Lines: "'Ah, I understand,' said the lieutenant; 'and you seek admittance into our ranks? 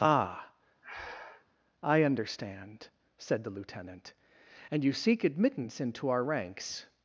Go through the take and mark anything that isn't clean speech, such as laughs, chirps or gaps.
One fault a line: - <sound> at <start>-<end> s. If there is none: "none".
- breath at 0.8-1.5 s